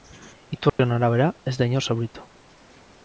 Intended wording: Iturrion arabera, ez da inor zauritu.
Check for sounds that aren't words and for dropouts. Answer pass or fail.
fail